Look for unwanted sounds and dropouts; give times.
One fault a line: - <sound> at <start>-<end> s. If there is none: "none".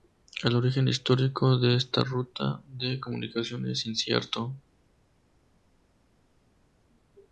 none